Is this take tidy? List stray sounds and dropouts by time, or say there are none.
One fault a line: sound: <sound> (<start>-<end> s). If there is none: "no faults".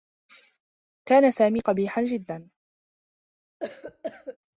sound: cough (3.6-4.4 s)